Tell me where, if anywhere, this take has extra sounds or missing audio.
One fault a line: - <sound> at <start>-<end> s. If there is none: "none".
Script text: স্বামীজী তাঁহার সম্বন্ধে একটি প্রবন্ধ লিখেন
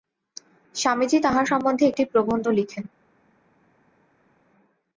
none